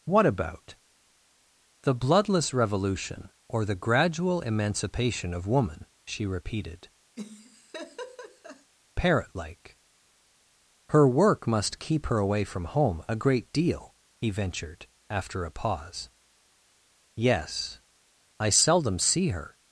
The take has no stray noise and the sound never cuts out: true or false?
false